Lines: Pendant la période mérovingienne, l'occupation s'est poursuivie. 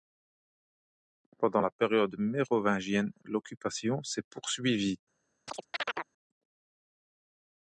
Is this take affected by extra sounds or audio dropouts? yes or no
yes